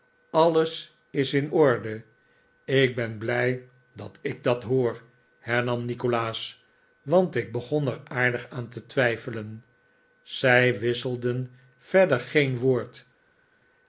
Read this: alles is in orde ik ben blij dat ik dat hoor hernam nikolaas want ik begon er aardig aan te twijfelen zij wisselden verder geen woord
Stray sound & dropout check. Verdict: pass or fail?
pass